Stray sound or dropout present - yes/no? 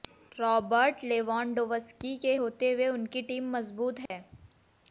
yes